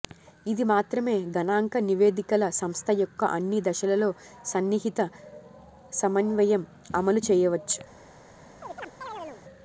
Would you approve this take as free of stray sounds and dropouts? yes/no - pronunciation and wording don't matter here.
no